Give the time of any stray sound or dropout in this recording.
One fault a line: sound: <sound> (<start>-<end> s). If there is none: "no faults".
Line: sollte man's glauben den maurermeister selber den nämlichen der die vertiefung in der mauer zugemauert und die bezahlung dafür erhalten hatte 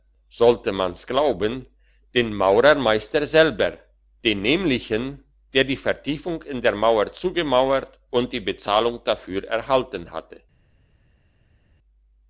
no faults